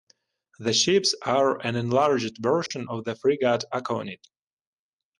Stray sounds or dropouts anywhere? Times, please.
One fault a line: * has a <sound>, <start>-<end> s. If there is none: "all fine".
* has a dropout, 2.7-2.7 s